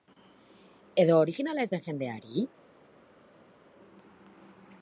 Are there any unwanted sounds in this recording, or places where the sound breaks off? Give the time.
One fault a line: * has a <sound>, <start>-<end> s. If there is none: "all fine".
all fine